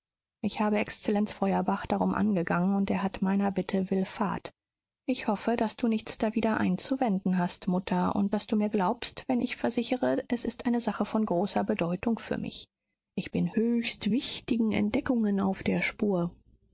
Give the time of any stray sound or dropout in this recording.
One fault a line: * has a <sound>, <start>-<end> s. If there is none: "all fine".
all fine